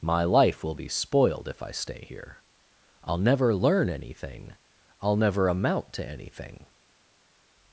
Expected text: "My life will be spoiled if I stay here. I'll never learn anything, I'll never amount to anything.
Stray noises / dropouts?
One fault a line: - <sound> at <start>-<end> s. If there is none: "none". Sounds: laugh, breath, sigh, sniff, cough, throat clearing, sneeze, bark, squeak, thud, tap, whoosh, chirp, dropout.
none